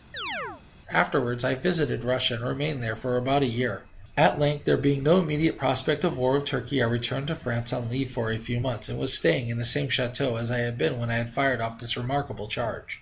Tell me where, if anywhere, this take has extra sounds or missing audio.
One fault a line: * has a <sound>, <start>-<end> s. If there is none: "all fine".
* has a chirp, 0.1-0.6 s